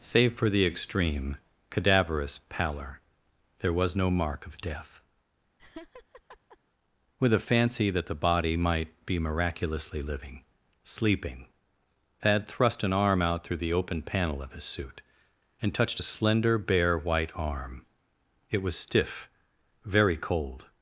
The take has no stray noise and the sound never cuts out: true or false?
false